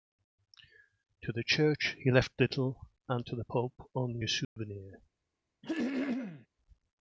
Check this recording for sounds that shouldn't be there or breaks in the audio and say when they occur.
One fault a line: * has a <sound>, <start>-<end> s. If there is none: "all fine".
* has a dropout, 4.4-4.6 s
* has a throat clearing, 5.6-6.5 s